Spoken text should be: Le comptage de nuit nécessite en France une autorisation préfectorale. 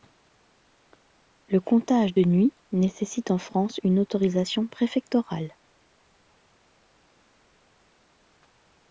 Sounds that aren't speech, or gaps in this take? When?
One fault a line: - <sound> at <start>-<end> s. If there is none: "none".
none